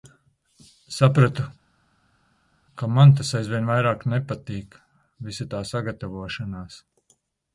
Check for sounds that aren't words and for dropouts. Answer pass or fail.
pass